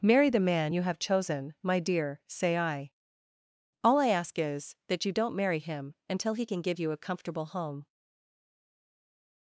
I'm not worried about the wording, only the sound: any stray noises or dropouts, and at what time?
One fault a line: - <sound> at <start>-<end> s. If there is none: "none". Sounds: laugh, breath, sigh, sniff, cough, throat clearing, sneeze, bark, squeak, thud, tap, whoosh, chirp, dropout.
none